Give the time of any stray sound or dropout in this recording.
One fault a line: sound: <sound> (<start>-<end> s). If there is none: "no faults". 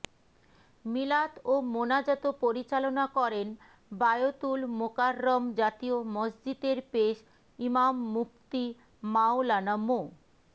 no faults